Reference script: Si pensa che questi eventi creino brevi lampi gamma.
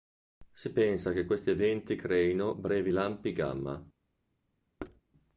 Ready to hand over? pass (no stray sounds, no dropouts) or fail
fail